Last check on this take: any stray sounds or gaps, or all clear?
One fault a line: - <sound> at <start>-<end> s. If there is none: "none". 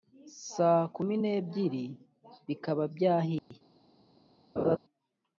- dropout at 3.4-3.5 s
- laugh at 4.6-4.8 s